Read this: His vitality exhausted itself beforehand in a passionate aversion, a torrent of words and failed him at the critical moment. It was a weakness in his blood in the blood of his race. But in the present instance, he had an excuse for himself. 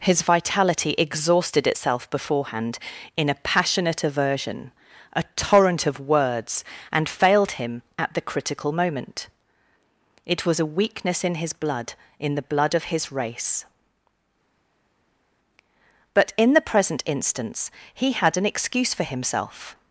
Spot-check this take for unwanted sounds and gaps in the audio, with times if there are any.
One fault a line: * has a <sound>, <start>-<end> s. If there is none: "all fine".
all fine